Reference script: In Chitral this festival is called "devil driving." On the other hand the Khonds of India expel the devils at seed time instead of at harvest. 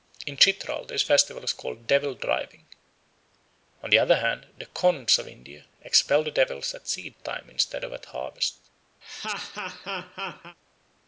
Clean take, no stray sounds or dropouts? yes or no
no